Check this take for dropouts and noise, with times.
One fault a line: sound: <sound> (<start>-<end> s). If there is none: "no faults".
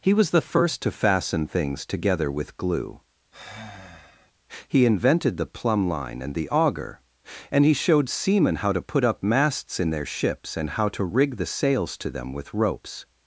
sound: sigh (3.3-4.3 s)